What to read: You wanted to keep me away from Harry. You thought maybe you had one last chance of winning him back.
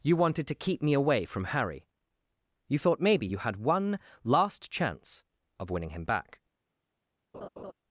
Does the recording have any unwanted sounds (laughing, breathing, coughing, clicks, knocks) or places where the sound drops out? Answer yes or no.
yes